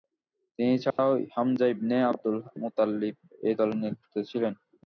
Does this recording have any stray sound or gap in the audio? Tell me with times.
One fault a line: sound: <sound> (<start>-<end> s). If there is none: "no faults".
sound: dropout (0.9-1.0 s)